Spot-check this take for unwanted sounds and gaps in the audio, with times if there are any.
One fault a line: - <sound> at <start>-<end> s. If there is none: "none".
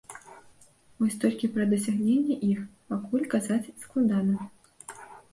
none